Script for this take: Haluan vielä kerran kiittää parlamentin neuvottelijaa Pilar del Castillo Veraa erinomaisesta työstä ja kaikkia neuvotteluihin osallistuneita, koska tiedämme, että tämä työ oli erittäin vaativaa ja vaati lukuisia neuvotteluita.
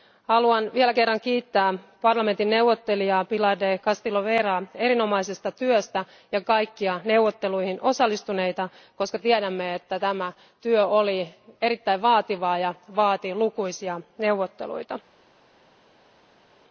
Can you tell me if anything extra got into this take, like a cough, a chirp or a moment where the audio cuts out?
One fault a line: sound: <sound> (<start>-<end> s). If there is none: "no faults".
no faults